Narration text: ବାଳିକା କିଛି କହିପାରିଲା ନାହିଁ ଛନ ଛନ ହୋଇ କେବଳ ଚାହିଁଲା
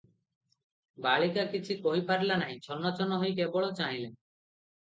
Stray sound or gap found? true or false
false